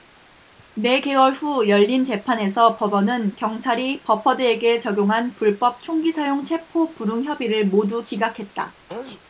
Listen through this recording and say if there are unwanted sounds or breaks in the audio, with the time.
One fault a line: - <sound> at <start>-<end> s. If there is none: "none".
- sneeze at 8.9-9.2 s